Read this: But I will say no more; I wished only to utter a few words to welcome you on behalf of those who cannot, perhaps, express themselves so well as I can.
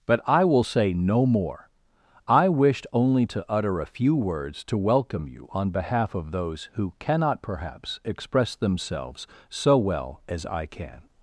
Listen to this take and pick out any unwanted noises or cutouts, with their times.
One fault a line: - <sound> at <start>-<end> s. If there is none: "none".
none